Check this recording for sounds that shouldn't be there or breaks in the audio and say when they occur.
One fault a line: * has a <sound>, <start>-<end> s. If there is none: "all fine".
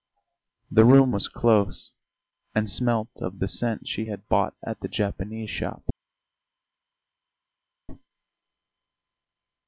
all fine